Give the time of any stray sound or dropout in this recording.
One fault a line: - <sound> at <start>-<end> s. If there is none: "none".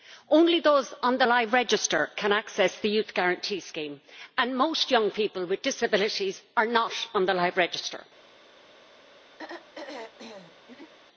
- throat clearing at 9.4-10.9 s